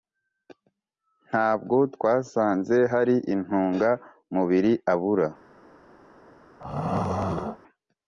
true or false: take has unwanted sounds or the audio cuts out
true